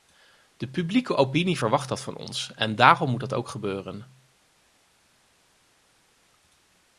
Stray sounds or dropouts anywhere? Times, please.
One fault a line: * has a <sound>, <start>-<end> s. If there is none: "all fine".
all fine